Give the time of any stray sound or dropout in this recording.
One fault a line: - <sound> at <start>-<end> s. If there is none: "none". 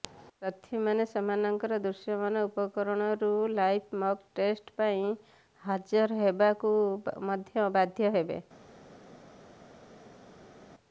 none